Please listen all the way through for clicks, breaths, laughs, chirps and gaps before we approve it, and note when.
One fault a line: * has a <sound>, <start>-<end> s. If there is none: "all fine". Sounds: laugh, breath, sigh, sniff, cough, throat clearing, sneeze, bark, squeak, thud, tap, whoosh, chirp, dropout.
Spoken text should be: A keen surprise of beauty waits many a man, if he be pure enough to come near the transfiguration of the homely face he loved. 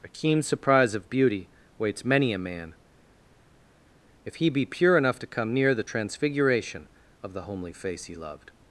all fine